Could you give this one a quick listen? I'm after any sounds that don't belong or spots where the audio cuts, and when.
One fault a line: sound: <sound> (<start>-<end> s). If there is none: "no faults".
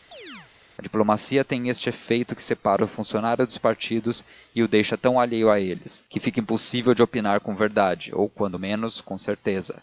sound: chirp (0.1-0.5 s)